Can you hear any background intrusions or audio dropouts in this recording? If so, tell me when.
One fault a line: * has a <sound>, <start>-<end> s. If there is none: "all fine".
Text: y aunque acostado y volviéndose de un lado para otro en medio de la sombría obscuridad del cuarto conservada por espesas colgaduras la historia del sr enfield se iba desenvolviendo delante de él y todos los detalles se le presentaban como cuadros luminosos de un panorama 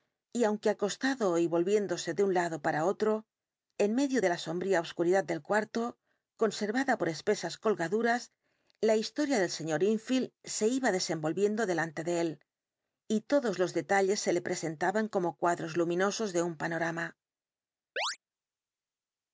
* has a chirp, 18.0-18.2 s